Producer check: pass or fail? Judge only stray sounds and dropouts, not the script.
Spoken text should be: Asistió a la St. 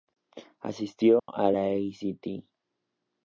fail